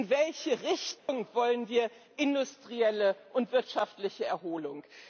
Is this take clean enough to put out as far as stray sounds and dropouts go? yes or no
no